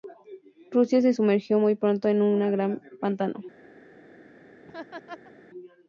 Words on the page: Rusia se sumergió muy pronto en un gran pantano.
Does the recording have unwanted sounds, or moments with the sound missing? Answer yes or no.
yes